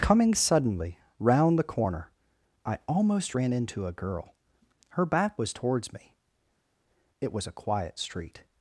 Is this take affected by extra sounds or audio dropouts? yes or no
no